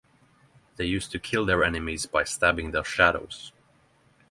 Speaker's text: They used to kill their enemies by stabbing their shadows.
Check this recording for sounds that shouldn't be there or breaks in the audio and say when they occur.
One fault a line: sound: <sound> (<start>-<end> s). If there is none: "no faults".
no faults